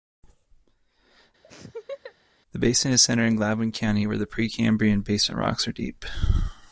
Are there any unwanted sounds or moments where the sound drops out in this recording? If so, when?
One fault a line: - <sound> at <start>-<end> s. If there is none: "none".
- laugh at 1.4-2.1 s